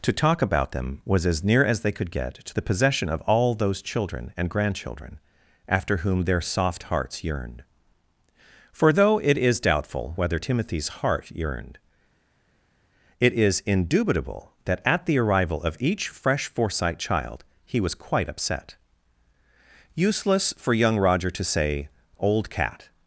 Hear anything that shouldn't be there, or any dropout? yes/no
no